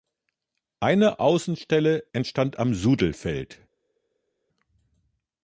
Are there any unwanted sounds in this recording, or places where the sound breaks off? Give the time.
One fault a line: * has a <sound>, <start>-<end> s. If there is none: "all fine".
all fine